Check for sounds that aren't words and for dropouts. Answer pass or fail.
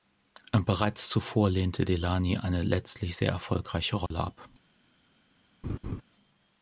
fail